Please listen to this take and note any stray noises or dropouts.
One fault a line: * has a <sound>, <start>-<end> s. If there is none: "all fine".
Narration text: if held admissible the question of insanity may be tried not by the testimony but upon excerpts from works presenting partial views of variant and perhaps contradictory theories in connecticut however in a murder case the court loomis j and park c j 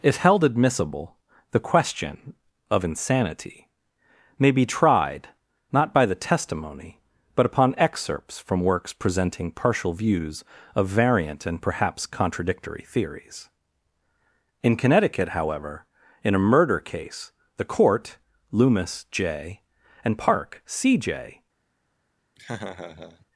* has a laugh, 22.4-23.3 s